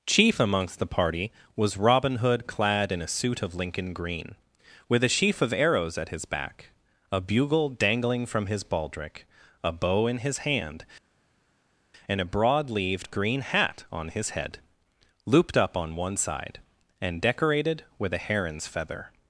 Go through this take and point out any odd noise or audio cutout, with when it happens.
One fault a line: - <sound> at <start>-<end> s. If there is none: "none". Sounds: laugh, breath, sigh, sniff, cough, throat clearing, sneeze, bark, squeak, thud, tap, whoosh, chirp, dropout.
none